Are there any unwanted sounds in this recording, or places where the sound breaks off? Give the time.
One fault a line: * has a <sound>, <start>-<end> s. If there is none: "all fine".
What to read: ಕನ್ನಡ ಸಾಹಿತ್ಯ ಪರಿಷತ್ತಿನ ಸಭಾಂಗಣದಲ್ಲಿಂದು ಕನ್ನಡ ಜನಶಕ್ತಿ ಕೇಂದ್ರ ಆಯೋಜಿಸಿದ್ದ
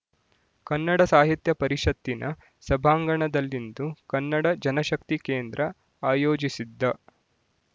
all fine